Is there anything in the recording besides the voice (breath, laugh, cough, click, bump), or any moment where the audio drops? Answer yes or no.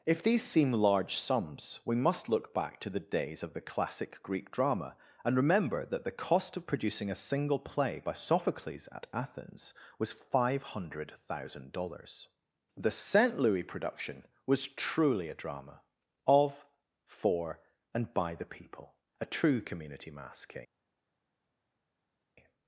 no